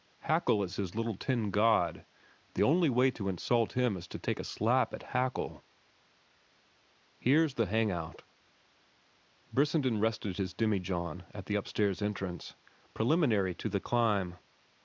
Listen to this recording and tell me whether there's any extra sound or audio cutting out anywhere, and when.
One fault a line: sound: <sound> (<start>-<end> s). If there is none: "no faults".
no faults